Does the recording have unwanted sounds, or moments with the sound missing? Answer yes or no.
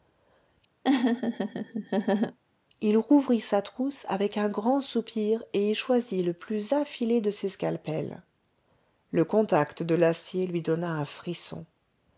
yes